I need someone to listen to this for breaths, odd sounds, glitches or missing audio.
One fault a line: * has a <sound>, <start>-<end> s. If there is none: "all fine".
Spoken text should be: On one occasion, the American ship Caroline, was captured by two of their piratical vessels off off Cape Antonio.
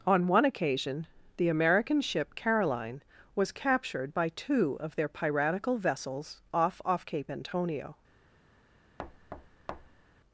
* has a thud, 9.0-10.0 s